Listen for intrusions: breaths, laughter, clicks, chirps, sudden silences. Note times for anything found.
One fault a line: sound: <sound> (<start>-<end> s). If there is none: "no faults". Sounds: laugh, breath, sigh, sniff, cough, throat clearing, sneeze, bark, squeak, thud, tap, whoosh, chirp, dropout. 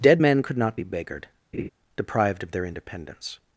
sound: laugh (1.5-1.7 s)